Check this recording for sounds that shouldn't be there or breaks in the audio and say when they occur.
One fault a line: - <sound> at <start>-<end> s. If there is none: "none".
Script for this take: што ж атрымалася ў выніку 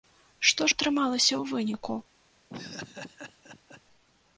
- laugh at 2.5-3.8 s